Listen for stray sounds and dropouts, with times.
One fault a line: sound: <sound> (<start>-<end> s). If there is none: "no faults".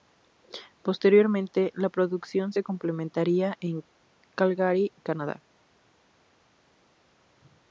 no faults